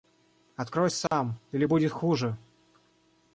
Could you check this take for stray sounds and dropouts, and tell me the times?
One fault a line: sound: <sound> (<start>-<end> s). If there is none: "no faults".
sound: dropout (1.1-1.1 s)